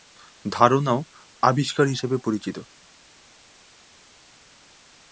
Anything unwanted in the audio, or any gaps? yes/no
no